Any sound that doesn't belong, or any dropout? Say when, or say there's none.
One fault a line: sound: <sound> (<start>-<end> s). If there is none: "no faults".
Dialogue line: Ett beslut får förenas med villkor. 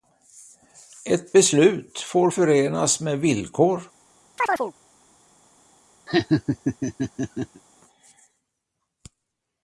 sound: chirp (4.4-4.7 s)
sound: laugh (6.1-7.6 s)